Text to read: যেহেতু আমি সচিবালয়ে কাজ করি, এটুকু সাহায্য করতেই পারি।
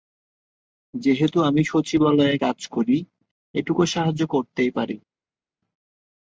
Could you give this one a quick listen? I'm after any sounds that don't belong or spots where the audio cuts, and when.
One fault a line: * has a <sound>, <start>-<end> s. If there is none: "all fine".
all fine